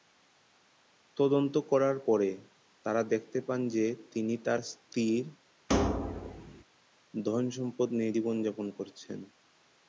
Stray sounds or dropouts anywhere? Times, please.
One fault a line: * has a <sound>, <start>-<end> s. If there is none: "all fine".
* has a thud, 5.7-6.6 s